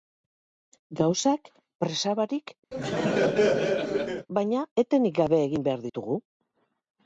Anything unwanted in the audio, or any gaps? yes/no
yes